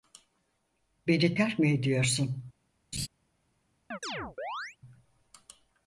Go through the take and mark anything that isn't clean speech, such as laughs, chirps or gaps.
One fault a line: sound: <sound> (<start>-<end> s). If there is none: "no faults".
sound: laugh (2.9-3.1 s)
sound: chirp (3.9-4.8 s)